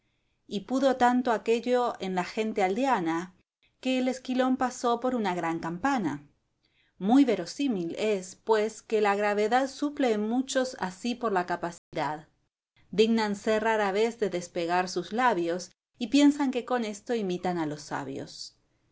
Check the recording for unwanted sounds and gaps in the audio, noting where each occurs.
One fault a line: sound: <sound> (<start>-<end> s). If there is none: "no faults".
sound: dropout (11.8-11.9 s)